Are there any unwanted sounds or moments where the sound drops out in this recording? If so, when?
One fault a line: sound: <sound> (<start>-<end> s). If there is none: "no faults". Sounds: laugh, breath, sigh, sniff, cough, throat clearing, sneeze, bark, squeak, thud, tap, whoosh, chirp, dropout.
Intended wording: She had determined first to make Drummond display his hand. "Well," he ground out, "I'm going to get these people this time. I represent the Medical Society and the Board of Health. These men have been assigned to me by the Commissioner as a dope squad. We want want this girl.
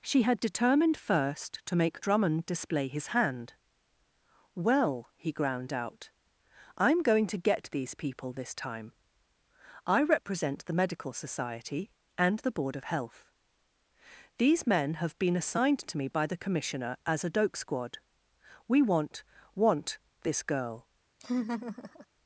sound: laugh (21.2-22.1 s)